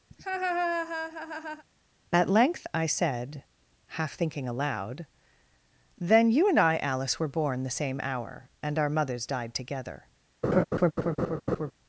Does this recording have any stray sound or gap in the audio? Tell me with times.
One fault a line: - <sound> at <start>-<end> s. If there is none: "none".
- laugh at 0.1-1.6 s
- laugh at 10.4-11.7 s